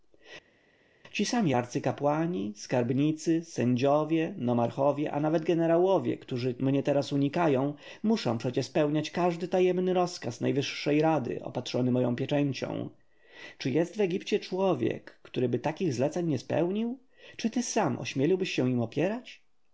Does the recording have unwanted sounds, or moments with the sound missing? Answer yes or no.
no